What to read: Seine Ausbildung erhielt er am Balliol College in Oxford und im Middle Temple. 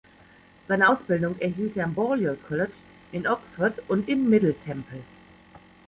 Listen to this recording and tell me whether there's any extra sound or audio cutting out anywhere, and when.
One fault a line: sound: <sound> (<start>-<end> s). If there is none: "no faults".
no faults